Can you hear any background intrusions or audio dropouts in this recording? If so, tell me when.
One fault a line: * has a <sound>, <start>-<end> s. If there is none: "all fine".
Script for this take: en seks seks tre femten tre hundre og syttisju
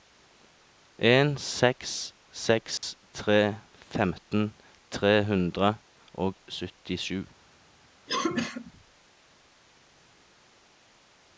* has a dropout, 2.8-2.8 s
* has a cough, 8.1-8.7 s